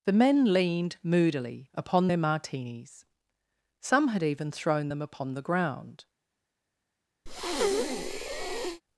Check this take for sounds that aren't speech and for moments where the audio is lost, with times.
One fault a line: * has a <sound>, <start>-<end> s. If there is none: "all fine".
* has a breath, 7.3-8.8 s